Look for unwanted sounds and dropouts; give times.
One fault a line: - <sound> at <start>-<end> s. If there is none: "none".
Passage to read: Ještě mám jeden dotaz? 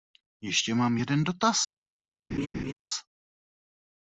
- laugh at 2.3-2.7 s